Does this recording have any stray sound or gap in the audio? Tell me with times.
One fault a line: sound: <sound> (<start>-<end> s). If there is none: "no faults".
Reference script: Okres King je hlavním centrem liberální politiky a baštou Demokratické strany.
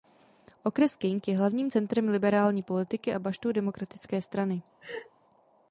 sound: laugh (4.8-5.1 s)